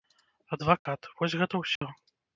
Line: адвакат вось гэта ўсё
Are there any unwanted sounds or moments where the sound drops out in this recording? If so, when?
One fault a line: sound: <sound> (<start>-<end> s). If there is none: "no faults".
sound: dropout (0.8-0.9 s)
sound: dropout (1.8-1.8 s)